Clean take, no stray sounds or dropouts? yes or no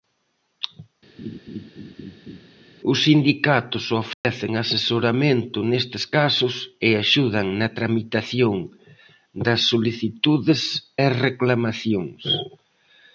no